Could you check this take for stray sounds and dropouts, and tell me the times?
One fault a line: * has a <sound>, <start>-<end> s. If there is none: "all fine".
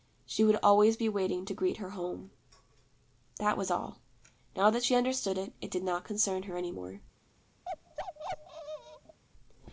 * has a bark, 7.7-9.2 s